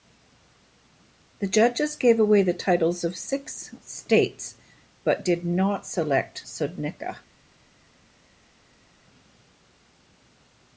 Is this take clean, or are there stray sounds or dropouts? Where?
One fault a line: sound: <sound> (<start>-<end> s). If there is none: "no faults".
no faults